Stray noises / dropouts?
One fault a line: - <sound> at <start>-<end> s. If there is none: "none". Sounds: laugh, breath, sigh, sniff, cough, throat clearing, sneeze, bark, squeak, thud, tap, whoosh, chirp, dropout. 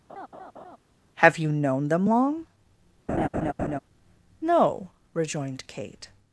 - laugh at 0.1-0.8 s
- laugh at 3.1-3.8 s